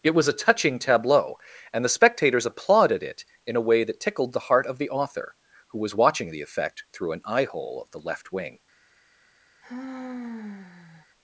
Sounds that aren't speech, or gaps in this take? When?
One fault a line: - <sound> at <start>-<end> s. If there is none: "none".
- sigh at 9.6-11.1 s